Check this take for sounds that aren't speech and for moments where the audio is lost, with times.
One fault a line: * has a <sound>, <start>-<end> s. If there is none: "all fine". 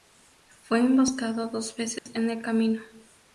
* has a dropout, 2.0-2.1 s